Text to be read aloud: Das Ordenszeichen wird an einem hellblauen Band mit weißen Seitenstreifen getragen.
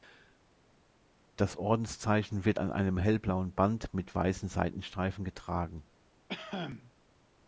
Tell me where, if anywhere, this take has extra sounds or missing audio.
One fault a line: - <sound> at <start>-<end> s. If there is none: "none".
- cough at 6.3-6.9 s